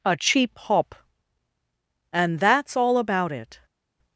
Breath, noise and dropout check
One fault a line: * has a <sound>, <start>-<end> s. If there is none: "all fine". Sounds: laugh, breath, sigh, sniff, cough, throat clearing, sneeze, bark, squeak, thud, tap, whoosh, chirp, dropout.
all fine